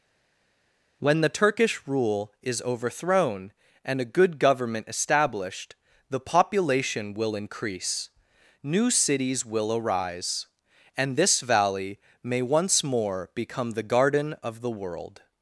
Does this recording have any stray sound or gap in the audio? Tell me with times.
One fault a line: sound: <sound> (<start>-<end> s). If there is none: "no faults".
no faults